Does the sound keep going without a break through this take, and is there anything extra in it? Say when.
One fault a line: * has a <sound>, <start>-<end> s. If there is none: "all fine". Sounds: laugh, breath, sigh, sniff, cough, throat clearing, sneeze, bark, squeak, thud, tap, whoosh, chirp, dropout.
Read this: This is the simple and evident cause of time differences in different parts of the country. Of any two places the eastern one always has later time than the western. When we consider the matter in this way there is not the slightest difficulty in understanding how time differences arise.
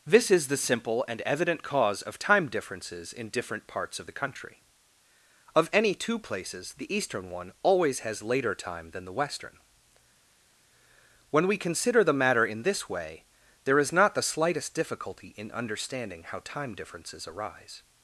all fine